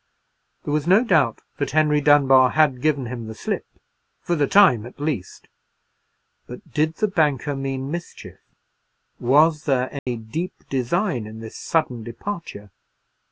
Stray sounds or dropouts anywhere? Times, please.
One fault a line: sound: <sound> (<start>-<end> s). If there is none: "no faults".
sound: dropout (10.0-10.1 s)